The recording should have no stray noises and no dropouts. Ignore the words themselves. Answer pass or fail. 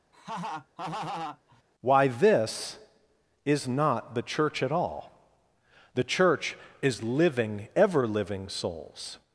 fail